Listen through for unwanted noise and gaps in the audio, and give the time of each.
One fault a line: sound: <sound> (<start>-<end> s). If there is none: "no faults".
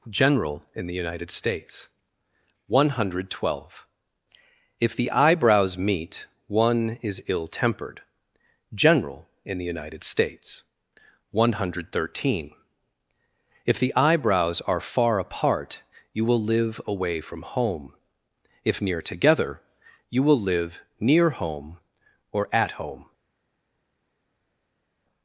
no faults